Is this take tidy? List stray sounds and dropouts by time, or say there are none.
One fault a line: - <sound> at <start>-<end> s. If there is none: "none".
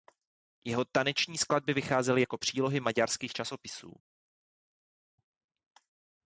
none